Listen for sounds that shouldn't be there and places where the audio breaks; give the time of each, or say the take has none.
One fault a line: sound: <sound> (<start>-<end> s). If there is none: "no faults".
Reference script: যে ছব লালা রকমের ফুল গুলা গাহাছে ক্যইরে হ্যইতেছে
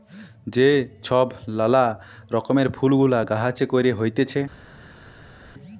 no faults